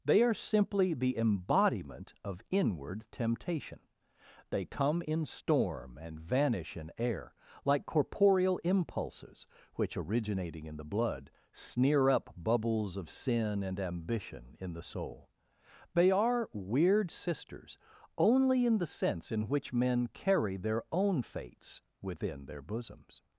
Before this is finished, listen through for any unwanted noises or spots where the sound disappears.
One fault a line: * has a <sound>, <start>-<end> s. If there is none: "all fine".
all fine